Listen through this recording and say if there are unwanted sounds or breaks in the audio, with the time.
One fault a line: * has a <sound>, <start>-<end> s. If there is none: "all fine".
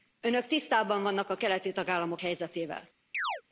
* has a chirp, 3.1-3.4 s